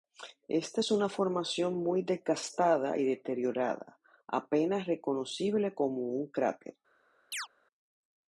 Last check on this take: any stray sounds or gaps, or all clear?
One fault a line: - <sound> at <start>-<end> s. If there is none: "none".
- chirp at 7.3-7.5 s